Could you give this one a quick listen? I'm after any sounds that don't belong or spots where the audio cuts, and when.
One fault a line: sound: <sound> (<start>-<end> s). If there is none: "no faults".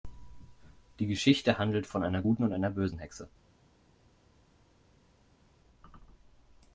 no faults